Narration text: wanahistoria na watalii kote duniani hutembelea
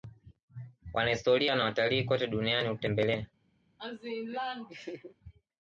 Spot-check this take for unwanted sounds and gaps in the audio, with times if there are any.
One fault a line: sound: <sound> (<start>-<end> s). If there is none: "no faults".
sound: laugh (3.8-5.1 s)